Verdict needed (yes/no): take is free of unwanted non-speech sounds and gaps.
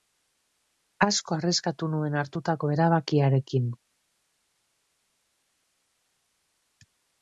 yes